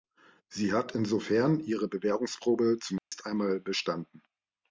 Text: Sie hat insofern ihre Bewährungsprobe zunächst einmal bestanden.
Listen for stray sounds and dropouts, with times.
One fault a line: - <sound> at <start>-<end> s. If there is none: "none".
- dropout at 3.0-3.1 s